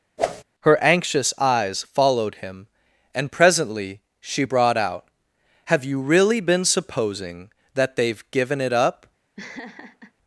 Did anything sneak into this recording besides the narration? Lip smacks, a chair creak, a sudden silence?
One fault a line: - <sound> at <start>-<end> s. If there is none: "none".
- whoosh at 0.2-0.4 s
- laugh at 9.4-10.1 s